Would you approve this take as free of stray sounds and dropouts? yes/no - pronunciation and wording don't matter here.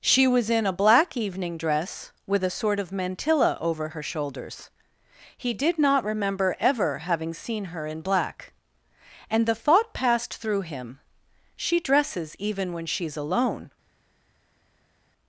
yes